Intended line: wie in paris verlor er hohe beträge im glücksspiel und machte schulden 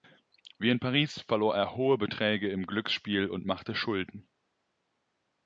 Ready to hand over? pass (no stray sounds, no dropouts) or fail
pass